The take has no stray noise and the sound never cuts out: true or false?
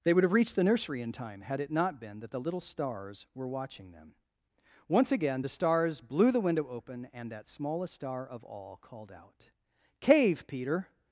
true